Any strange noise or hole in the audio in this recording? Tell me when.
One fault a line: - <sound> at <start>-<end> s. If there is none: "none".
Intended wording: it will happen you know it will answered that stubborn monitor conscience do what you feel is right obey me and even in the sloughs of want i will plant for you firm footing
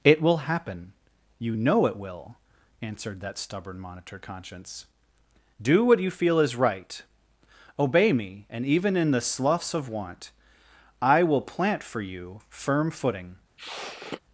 - sniff at 13.6-14.2 s